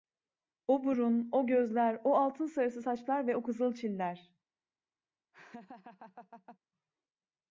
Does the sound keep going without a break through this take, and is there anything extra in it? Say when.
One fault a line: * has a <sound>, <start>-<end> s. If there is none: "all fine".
* has a laugh, 5.3-6.6 s